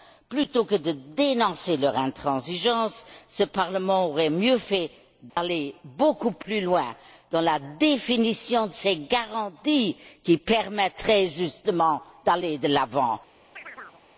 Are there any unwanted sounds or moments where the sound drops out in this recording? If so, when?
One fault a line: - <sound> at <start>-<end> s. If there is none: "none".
- dropout at 5.3-5.4 s
- chirp at 13.6-14.0 s